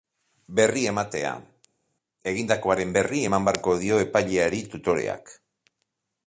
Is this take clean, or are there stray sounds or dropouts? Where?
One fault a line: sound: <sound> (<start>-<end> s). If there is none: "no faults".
no faults